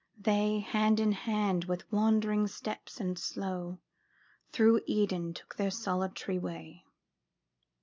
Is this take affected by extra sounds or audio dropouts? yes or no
no